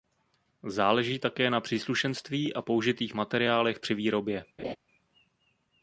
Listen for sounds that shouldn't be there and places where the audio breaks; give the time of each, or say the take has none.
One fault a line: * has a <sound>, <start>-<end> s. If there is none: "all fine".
* has a laugh, 4.6-4.8 s